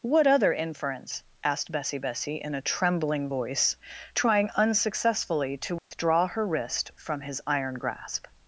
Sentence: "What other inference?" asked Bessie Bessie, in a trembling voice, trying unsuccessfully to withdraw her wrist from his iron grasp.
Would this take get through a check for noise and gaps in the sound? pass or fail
fail